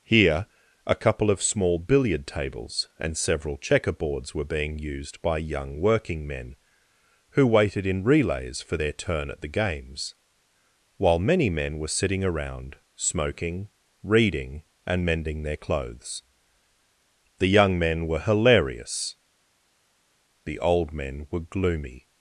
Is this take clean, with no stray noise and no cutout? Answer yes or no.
yes